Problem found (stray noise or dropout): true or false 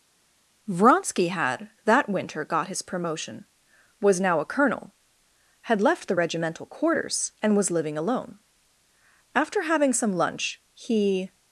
false